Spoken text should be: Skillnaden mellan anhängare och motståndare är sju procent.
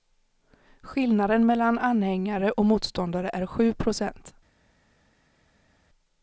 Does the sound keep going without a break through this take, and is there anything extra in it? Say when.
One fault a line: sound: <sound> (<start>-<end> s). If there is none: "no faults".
no faults